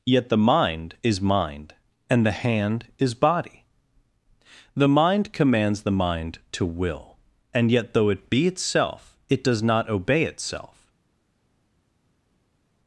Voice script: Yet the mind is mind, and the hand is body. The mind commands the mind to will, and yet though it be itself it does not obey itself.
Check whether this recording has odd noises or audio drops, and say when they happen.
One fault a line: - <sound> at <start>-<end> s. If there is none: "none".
none